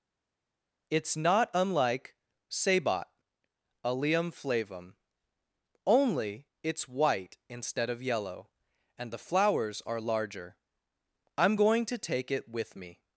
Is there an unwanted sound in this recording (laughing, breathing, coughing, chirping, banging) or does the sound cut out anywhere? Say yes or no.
no